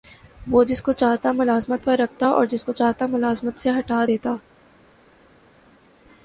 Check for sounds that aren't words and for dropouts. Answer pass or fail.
pass